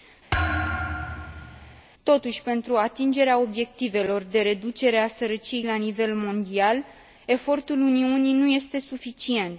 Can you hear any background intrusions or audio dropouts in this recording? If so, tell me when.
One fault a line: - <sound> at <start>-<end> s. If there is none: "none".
- thud at 0.3-1.8 s